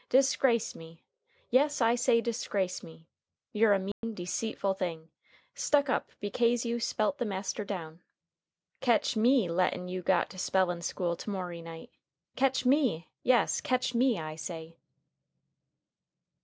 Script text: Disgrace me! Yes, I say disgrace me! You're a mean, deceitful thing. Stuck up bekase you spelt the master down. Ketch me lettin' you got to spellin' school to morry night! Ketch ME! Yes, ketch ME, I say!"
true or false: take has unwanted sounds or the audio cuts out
true